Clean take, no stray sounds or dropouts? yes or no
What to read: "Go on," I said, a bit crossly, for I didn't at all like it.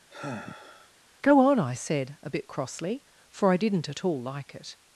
no